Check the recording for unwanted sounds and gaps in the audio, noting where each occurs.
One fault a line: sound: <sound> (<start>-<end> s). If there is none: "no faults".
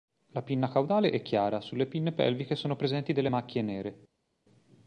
no faults